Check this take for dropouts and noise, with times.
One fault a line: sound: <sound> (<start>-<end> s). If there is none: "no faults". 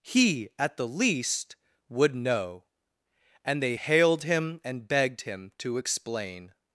no faults